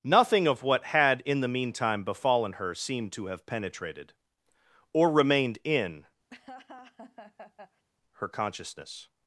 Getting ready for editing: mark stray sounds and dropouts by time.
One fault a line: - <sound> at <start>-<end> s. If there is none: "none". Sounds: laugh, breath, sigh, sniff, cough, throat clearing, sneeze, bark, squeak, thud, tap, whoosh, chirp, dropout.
- laugh at 6.3-7.8 s